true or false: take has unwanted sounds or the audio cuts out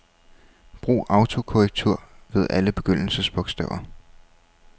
false